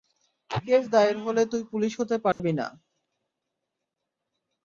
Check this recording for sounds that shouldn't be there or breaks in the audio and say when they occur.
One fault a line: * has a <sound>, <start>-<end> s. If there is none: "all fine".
* has a dropout, 2.3-2.4 s